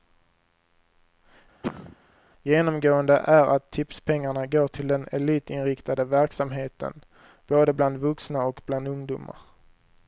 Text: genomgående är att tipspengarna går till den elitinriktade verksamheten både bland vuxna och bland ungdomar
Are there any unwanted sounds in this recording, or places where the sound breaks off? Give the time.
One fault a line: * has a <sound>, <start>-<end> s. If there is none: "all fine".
* has a cough, 1.6-2.0 s